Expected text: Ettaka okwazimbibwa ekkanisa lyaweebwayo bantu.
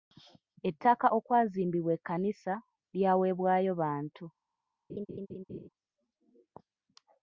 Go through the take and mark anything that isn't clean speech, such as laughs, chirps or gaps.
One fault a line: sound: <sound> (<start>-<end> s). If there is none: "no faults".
sound: laugh (4.9-5.7 s)